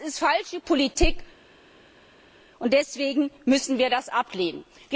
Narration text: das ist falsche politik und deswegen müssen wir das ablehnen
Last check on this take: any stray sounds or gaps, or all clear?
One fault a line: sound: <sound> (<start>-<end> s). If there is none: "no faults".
no faults